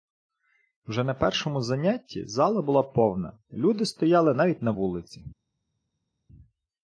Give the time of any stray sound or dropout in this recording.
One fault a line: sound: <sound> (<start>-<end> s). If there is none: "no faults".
no faults